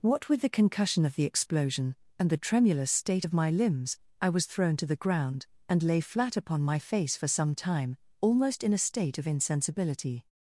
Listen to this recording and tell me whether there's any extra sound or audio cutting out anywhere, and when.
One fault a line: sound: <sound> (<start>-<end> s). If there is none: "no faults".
no faults